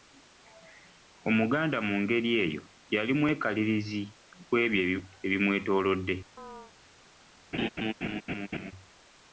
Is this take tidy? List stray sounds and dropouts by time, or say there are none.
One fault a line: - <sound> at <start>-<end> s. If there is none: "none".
- chirp at 6.4-6.7 s
- laugh at 7.5-8.7 s